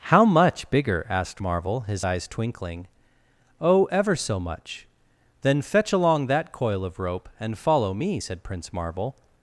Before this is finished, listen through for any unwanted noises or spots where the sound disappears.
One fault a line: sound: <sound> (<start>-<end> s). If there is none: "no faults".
no faults